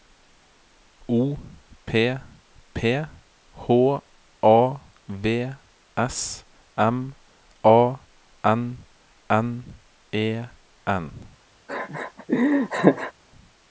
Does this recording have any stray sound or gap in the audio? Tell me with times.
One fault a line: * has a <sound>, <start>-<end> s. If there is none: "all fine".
* has a laugh, 11.7-13.1 s